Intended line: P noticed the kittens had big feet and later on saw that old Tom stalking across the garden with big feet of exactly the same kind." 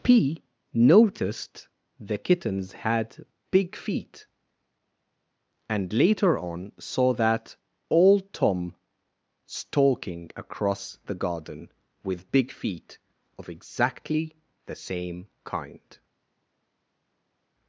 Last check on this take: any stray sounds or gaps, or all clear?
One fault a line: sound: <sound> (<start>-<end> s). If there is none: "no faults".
no faults